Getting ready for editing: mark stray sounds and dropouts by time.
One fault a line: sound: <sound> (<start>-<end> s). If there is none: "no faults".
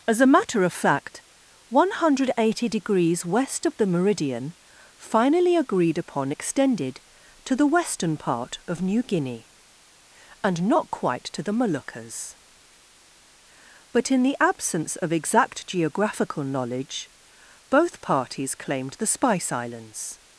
no faults